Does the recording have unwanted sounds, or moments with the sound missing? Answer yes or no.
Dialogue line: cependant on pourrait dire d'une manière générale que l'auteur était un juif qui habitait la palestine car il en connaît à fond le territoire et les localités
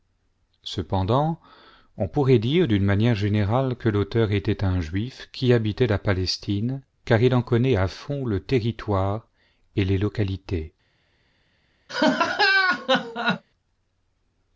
yes